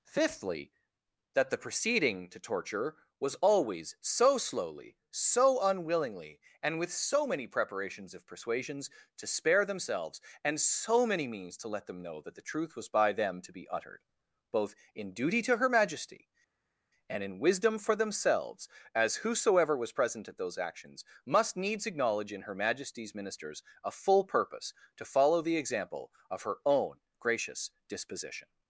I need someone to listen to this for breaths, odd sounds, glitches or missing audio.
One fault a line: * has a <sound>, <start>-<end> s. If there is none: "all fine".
all fine